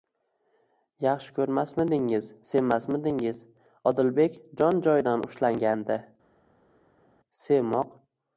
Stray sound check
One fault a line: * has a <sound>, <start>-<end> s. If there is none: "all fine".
all fine